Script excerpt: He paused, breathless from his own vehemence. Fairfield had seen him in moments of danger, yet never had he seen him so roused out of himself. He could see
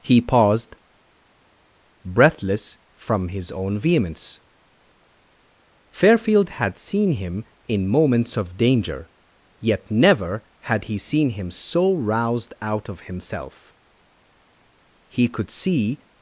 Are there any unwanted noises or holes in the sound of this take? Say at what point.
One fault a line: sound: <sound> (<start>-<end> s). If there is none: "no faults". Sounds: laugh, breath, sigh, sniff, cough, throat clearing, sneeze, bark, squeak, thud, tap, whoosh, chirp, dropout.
no faults